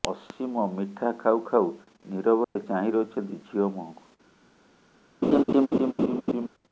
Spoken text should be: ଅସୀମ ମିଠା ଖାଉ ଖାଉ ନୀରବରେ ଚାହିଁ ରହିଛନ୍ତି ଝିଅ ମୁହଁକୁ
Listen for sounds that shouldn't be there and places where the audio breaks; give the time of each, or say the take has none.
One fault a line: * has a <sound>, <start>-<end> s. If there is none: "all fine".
* has a dropout, 2.4-2.6 s
* has a laugh, 5.2-6.5 s